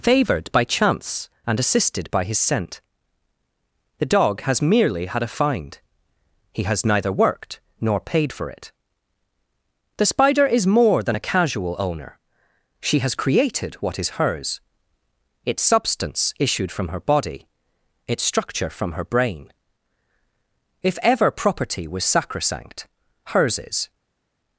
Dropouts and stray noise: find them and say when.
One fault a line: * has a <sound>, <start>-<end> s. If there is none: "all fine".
all fine